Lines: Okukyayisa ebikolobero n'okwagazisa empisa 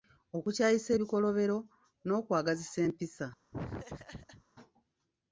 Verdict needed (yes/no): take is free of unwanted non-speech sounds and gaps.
no